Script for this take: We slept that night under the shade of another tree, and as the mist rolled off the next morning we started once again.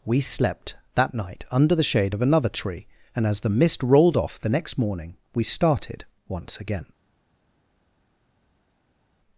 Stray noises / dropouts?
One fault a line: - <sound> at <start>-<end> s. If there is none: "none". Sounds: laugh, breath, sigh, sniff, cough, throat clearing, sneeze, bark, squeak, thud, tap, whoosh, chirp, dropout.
none